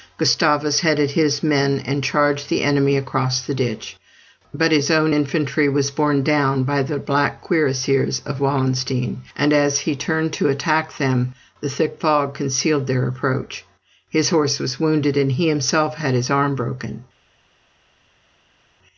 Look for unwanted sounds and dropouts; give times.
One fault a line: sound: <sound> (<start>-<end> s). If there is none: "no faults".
no faults